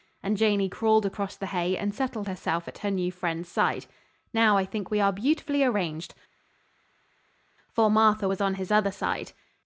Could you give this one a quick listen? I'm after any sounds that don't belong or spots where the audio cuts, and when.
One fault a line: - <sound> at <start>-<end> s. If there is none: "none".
none